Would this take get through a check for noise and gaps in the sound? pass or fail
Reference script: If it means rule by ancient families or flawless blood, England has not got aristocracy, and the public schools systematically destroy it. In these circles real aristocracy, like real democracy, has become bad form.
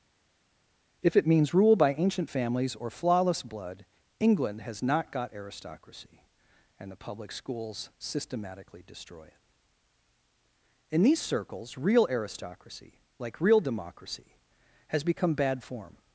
pass